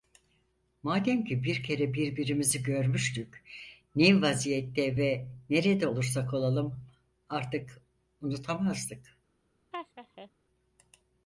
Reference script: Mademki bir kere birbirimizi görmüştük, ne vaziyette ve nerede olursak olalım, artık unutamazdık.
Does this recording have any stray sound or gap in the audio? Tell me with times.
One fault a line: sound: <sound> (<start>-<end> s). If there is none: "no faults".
sound: laugh (9.7-10.3 s)